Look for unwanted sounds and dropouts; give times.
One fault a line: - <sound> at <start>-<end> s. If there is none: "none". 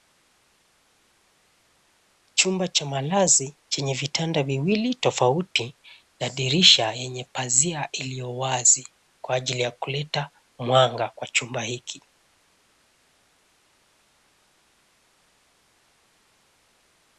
none